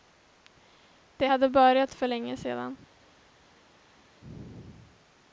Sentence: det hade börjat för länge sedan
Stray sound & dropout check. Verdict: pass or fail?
pass